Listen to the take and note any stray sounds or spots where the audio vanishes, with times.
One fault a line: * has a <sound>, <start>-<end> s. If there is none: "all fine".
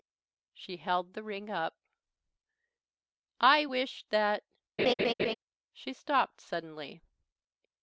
* has a laugh, 4.8-5.3 s